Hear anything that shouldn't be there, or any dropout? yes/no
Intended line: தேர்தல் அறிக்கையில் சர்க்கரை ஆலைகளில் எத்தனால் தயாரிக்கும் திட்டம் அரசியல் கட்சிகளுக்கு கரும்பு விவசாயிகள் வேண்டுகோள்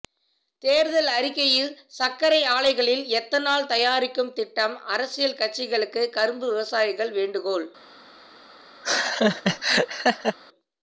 yes